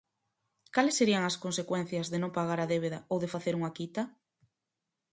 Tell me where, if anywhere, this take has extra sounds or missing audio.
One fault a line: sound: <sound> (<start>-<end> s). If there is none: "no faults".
no faults